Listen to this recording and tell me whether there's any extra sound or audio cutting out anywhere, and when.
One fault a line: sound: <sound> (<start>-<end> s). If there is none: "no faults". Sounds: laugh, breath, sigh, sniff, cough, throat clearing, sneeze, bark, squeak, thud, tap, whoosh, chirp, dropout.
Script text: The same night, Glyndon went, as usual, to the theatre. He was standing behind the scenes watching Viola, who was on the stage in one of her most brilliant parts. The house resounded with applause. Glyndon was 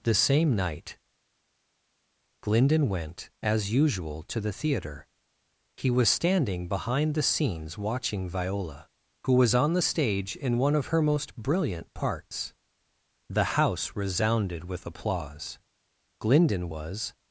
no faults